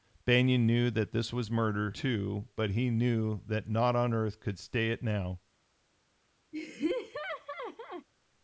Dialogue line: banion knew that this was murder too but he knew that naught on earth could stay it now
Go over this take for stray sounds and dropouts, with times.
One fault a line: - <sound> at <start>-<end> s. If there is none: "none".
- laugh at 6.5-8.1 s